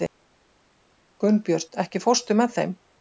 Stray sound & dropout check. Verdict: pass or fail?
pass